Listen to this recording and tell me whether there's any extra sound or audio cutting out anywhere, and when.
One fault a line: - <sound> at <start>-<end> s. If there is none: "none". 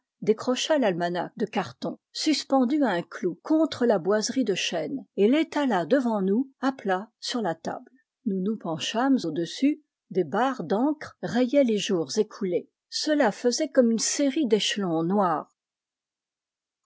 none